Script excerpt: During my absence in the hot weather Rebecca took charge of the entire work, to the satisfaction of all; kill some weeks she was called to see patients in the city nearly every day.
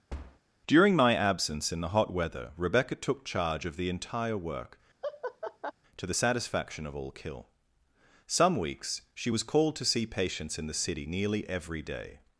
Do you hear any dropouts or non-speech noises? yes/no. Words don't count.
yes